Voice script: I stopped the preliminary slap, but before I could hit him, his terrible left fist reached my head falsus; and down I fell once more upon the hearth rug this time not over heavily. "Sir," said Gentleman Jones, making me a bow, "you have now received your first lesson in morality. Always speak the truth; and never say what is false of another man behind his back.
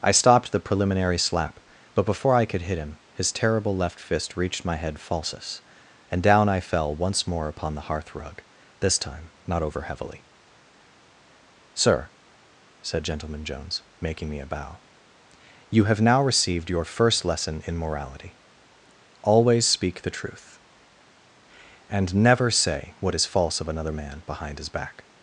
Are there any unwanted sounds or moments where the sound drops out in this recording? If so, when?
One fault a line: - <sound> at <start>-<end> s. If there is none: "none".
none